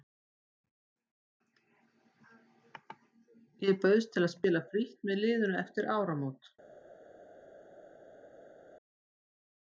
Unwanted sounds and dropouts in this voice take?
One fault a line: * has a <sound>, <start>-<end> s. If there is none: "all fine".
all fine